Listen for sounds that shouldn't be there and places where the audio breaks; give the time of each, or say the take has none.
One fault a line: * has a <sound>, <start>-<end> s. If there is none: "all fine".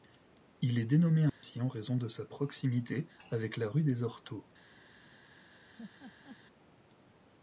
* has a dropout, 1.3-1.4 s
* has a laugh, 5.8-6.4 s